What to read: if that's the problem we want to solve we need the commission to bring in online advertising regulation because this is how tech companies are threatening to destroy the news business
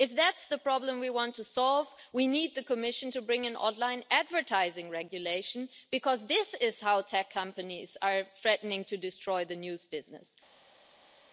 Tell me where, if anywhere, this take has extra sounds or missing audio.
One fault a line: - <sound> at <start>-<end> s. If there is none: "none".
none